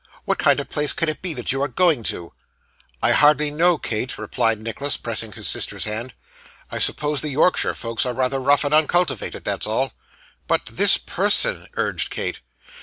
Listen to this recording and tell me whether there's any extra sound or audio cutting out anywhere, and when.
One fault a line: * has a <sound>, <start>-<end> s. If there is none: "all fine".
all fine